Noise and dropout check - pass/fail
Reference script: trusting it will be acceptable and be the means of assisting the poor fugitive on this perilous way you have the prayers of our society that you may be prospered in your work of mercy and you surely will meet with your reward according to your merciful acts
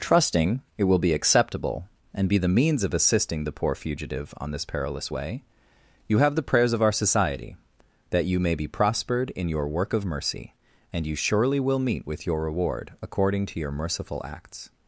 pass